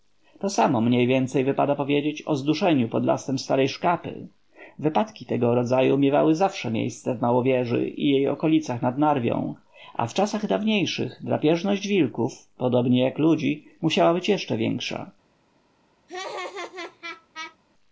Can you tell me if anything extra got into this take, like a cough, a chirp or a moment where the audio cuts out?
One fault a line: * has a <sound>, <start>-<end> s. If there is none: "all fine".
* has a laugh, 16.1-17.6 s